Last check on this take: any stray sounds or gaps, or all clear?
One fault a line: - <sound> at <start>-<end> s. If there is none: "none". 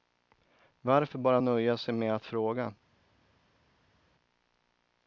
none